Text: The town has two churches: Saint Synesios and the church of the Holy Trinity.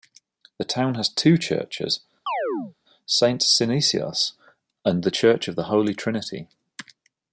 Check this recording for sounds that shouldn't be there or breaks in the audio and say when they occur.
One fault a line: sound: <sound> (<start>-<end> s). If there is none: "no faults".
sound: chirp (2.3-2.7 s)